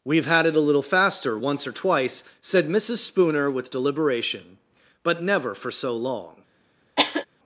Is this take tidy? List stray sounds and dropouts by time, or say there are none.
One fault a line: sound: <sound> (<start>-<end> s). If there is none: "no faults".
sound: cough (7.0-7.3 s)